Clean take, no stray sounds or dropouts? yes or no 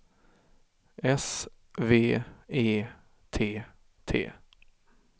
yes